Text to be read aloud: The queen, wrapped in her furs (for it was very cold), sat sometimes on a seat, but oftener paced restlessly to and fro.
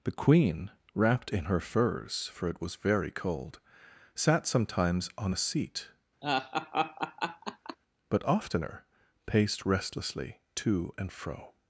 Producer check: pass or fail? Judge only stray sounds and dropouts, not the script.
fail